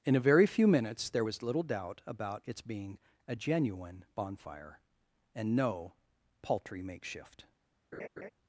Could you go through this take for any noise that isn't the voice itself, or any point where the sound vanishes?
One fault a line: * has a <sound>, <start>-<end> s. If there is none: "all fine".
* has a laugh, 7.9-8.3 s